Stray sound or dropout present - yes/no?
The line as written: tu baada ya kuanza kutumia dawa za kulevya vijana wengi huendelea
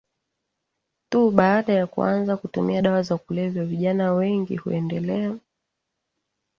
no